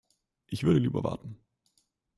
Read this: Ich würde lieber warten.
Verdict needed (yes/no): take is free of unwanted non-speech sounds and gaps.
yes